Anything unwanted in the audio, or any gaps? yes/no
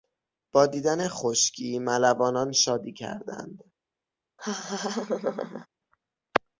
yes